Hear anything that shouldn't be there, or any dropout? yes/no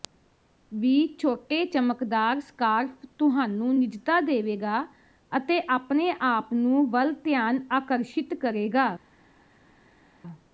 no